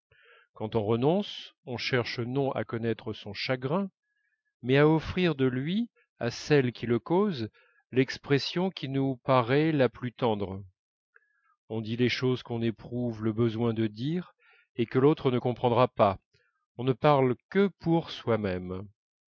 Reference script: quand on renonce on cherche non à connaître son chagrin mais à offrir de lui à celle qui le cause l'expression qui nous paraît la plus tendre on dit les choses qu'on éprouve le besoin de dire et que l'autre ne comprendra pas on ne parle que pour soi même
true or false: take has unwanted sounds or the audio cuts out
false